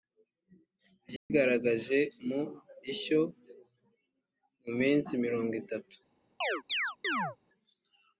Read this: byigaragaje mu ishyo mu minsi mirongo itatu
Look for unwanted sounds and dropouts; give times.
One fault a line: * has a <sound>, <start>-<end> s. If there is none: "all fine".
* has a dropout, 1.2-1.3 s
* has a chirp, 6.4-7.4 s